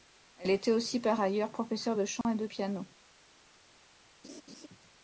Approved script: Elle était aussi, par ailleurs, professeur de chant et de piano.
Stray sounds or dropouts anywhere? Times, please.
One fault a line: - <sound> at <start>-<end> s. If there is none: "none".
- dropout at 2.2-2.2 s
- laugh at 4.2-4.7 s